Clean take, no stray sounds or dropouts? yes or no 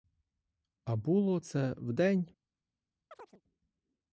no